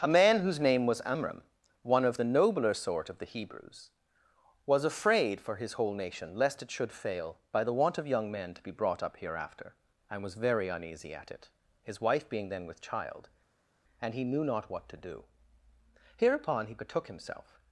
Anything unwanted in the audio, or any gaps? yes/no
no